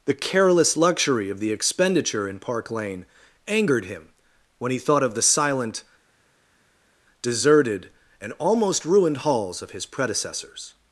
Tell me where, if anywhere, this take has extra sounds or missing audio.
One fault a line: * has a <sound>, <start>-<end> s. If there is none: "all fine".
all fine